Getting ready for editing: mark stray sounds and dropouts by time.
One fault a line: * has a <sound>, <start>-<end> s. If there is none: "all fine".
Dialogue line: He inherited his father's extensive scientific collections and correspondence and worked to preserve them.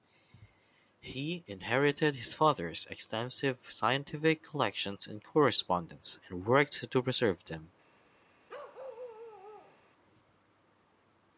* has a bark, 8.5-9.8 s